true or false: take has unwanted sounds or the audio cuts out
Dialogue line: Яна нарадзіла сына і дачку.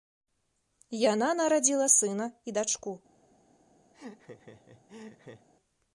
true